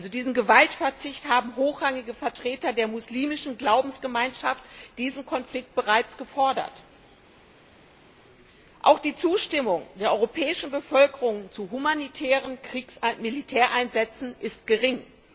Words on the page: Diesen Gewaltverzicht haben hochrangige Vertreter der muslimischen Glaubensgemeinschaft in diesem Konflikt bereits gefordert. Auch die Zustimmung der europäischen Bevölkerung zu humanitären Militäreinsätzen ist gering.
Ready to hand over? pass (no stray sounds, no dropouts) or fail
pass